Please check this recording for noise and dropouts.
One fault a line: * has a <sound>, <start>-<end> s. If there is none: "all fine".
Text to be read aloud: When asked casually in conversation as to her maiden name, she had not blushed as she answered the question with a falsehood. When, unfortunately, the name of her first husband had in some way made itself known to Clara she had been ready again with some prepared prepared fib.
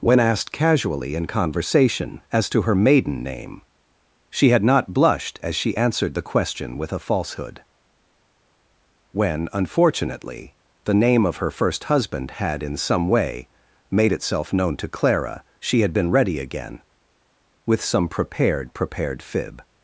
all fine